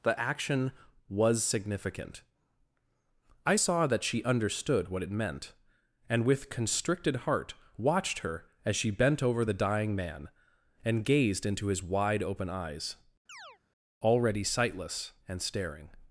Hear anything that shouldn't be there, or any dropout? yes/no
yes